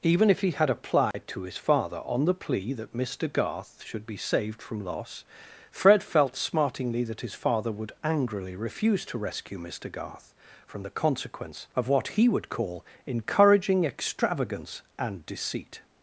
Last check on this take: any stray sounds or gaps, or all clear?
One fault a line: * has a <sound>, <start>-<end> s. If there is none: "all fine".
* has a dropout, 1.1-1.1 s